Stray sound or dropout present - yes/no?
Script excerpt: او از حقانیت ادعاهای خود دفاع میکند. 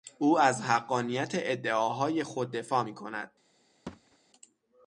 yes